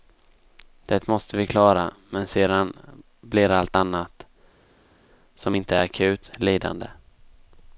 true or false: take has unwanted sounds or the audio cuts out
false